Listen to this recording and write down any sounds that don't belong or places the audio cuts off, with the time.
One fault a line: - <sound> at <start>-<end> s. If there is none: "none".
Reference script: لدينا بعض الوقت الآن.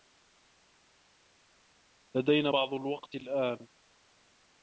none